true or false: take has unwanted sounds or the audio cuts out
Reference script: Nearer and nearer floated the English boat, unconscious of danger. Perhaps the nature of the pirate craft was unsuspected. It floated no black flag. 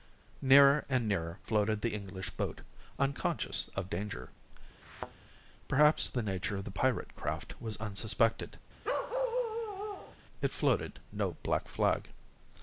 true